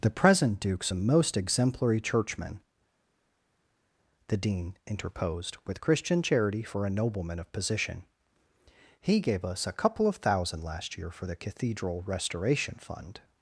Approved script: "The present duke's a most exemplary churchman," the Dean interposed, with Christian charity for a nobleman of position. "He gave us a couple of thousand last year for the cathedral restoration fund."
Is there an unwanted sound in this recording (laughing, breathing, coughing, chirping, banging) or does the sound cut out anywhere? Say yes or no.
no